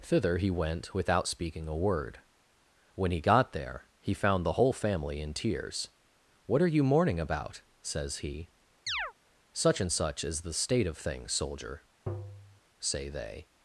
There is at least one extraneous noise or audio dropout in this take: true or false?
true